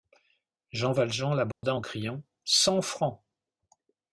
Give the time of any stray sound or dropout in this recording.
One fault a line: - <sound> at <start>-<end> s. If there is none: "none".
- dropout at 1.5-1.6 s